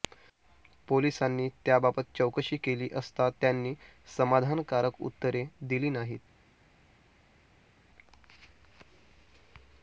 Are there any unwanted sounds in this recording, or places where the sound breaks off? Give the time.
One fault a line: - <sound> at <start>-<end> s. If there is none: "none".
none